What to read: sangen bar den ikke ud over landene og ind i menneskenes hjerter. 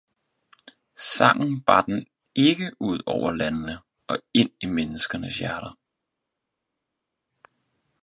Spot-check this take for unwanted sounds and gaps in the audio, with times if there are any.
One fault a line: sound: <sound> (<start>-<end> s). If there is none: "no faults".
no faults